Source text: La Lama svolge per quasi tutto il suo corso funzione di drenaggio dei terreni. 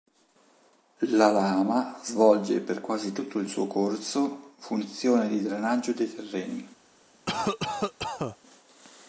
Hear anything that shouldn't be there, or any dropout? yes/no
yes